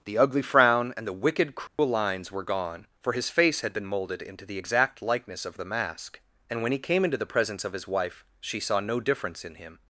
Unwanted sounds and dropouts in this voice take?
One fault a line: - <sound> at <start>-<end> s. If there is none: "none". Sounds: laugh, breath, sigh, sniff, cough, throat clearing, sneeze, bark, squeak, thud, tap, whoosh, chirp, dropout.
- dropout at 1.7-1.8 s